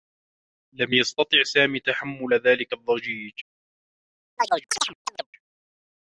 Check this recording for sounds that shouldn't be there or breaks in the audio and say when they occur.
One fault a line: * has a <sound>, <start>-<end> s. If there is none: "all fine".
* has a chirp, 4.4-5.3 s